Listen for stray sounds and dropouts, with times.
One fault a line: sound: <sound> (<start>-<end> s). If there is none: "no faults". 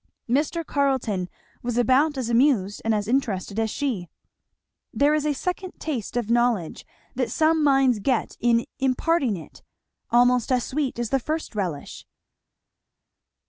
no faults